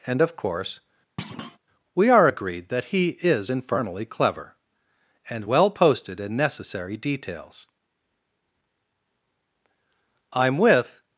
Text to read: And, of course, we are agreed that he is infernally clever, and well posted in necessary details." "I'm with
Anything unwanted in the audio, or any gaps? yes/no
yes